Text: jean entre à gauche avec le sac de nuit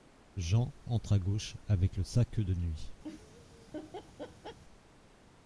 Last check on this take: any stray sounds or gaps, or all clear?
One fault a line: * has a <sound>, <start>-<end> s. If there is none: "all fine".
* has a laugh, 3.0-4.6 s